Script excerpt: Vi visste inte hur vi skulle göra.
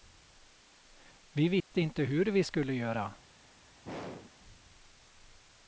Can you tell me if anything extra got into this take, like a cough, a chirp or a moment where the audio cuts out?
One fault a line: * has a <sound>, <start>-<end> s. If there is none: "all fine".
* has a dropout, 1.6-1.7 s
* has a throat clearing, 3.8-4.3 s